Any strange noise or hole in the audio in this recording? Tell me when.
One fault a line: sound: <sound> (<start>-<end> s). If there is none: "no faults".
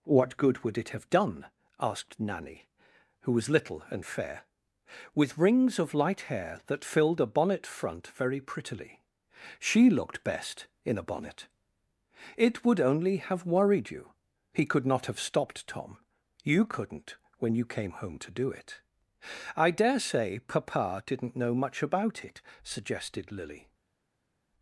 no faults